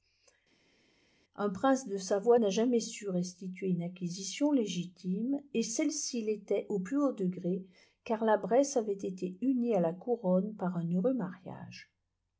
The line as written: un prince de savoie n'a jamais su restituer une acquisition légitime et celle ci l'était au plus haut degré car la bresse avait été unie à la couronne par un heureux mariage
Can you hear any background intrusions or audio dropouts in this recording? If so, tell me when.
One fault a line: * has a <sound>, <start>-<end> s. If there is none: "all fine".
all fine